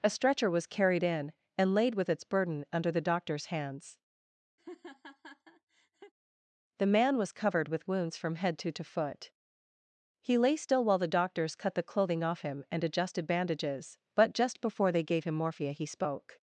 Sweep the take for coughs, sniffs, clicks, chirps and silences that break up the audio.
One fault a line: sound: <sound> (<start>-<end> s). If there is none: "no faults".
sound: laugh (4.6-6.1 s)